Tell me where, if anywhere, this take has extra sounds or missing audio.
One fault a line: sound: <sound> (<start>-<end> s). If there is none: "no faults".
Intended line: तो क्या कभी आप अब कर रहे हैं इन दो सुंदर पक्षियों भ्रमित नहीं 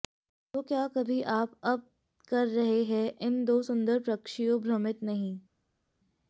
no faults